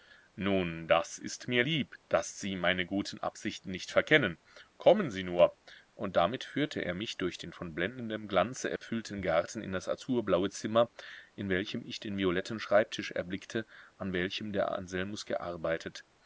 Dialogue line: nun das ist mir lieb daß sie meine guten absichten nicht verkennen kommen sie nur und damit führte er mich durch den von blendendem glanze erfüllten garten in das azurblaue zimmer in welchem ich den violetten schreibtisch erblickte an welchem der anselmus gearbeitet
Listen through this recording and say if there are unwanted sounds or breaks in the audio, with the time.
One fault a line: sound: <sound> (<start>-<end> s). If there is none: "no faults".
sound: dropout (8.8-8.8 s)